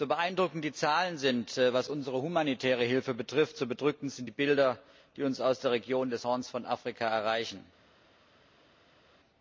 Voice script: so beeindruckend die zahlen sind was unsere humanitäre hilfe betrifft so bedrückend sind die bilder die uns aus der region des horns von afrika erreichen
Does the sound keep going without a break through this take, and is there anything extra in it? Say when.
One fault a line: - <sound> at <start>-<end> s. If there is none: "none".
none